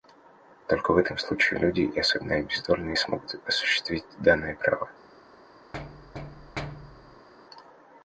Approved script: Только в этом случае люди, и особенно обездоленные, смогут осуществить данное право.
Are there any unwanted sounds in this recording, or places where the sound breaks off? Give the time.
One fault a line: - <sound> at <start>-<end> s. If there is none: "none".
- thud at 5.7-7.3 s